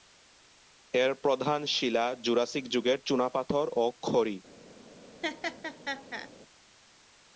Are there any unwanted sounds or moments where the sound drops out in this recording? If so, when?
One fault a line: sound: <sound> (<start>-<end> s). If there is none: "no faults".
sound: laugh (5.2-6.3 s)